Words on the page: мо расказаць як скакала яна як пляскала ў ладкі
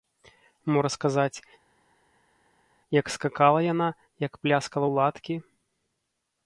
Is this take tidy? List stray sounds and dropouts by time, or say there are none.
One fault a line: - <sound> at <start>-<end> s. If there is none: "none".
none